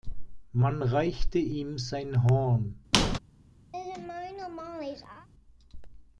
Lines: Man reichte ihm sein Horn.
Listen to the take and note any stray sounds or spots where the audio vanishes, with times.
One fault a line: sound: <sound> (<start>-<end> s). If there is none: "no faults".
sound: squeak (2.9-3.2 s)
sound: laugh (3.7-5.3 s)